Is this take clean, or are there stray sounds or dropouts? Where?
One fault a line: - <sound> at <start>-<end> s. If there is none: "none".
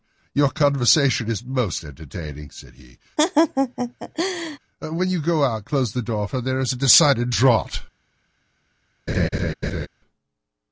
- laugh at 3.2-4.6 s
- laugh at 9.1-9.9 s